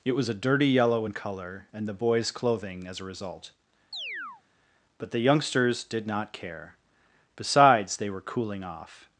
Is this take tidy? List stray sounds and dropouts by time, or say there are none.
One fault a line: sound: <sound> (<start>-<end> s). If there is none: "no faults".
sound: chirp (3.9-4.4 s)